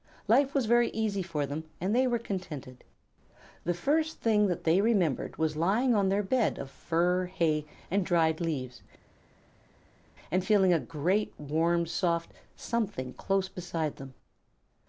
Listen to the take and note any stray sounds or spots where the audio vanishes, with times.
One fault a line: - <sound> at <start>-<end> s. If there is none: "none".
none